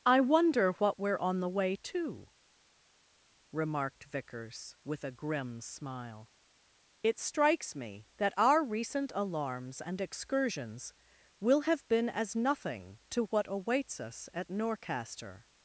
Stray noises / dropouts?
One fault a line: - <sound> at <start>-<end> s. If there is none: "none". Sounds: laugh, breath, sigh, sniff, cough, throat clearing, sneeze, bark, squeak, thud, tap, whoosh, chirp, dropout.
none